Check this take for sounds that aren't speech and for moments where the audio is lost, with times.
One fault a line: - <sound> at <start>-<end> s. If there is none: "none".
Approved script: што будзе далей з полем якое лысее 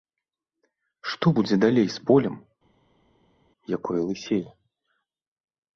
none